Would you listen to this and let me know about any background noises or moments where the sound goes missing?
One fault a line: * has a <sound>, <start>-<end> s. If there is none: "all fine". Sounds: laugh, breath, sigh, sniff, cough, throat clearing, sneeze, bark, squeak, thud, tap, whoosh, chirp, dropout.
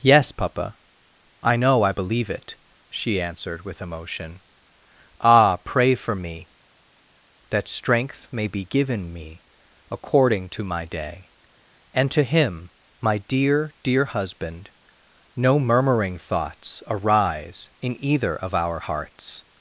all fine